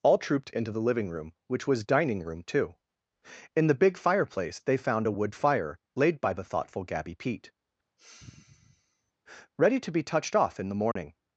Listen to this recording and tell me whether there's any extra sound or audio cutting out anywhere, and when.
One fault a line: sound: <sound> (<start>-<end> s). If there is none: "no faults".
sound: sigh (8.0-9.1 s)
sound: dropout (10.9-11.0 s)